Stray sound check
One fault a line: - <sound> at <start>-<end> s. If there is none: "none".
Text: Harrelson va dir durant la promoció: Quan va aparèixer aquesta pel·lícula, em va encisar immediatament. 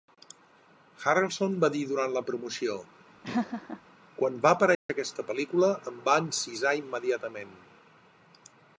- laugh at 3.2-3.8 s
- dropout at 4.7-4.9 s